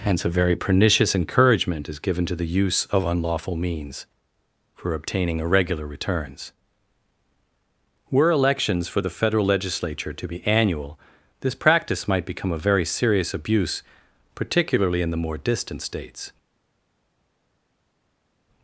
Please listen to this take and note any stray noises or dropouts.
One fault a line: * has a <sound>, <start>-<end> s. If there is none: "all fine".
all fine